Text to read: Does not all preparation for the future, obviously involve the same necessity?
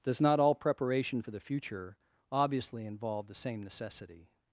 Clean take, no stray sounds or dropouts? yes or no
yes